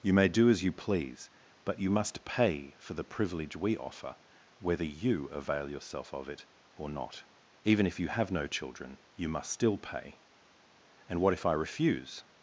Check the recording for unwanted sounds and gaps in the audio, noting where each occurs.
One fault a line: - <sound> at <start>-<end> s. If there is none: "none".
none